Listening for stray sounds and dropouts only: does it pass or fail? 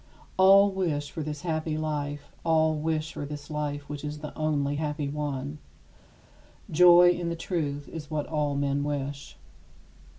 pass